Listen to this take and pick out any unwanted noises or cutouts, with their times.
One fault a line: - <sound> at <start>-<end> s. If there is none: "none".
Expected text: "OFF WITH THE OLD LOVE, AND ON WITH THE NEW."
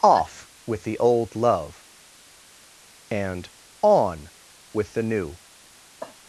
- cough at 6.0-6.2 s